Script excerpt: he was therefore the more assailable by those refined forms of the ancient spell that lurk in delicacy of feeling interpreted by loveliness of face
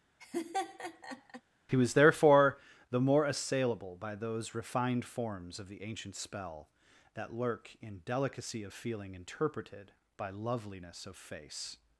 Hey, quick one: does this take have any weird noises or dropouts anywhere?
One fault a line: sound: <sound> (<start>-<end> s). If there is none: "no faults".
sound: laugh (0.2-1.4 s)